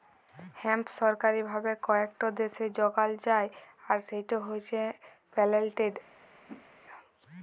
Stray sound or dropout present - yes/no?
yes